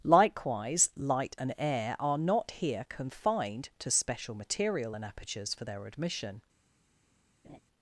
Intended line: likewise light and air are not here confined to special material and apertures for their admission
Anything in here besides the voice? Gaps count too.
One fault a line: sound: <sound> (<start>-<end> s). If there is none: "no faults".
sound: laugh (7.4-7.6 s)